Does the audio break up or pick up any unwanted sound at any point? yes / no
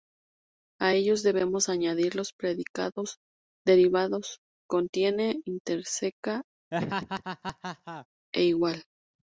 yes